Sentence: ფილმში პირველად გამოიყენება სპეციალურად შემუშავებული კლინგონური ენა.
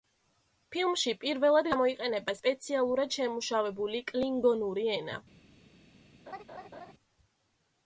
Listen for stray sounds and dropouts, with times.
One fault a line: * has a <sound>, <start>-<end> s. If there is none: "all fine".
* has a laugh, 6.3-6.9 s